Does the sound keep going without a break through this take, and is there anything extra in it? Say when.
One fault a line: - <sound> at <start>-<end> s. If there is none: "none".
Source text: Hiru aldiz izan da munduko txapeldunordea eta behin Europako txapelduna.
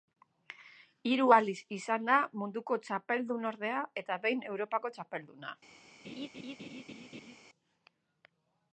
- laugh at 6.0-7.4 s